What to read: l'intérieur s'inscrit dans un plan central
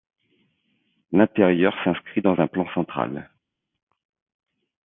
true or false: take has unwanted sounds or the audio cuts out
false